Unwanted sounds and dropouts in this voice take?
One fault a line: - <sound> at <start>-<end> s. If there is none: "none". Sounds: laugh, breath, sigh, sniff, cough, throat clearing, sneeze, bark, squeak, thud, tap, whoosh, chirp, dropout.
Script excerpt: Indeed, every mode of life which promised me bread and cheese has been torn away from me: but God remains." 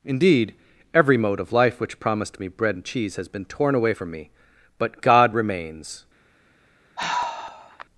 - sigh at 7.0-7.9 s